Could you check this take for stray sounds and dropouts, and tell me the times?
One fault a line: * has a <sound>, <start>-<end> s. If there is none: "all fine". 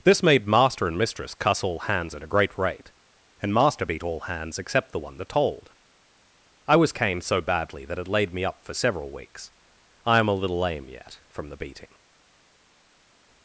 all fine